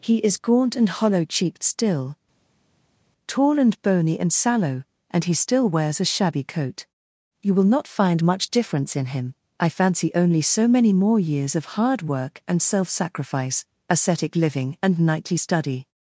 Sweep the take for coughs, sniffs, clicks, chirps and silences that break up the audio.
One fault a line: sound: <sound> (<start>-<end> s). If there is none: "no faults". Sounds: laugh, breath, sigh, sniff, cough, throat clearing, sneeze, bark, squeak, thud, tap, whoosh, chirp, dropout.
no faults